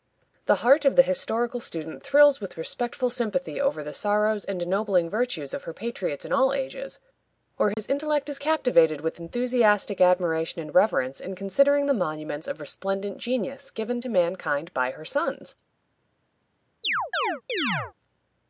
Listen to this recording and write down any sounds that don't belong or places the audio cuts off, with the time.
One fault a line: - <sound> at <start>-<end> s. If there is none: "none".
- dropout at 7.7-7.8 s
- chirp at 16.8-17.9 s